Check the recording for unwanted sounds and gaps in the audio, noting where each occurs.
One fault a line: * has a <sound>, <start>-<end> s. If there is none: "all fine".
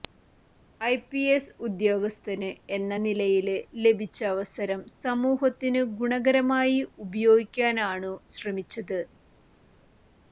all fine